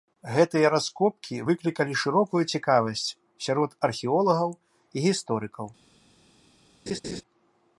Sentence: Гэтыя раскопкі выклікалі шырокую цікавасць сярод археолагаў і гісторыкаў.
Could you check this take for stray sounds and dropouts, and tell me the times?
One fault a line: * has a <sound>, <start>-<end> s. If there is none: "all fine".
* has a laugh, 6.9-7.2 s